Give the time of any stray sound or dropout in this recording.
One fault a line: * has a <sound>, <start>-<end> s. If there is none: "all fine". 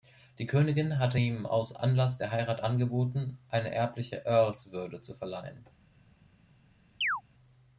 * has a chirp, 7.0-7.2 s